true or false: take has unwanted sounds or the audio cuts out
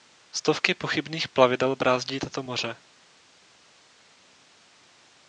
false